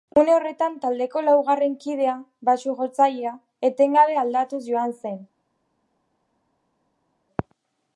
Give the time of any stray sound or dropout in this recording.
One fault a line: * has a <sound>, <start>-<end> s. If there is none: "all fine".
all fine